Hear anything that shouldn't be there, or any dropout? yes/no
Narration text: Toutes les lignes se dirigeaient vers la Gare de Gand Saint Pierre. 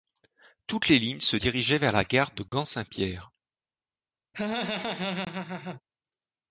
yes